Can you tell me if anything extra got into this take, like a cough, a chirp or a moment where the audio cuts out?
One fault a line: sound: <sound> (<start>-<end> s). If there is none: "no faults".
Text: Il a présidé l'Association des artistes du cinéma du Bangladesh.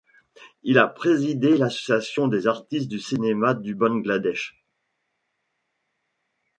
no faults